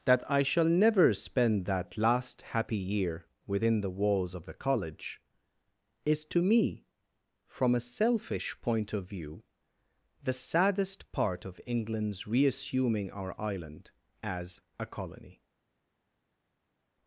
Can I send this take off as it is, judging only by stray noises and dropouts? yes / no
yes